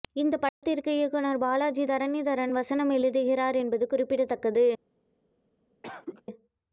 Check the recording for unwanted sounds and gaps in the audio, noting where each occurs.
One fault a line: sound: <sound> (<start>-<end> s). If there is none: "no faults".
sound: dropout (0.5-0.6 s)
sound: cough (5.8-6.2 s)